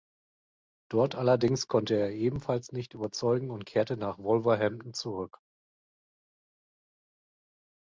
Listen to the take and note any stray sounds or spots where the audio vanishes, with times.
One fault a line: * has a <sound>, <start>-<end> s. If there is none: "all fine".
all fine